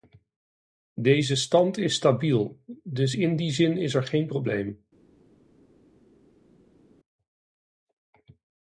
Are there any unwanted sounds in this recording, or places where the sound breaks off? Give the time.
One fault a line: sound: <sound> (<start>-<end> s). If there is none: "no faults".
no faults